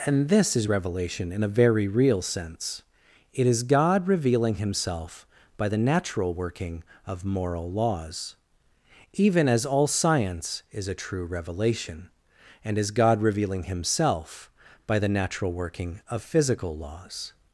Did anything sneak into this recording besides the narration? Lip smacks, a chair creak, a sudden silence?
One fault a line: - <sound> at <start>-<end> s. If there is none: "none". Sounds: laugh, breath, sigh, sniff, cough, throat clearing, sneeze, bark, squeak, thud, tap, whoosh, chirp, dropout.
none